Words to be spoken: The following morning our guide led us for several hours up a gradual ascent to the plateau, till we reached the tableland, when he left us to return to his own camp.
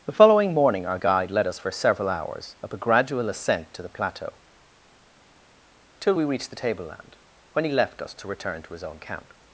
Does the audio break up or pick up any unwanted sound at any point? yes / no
no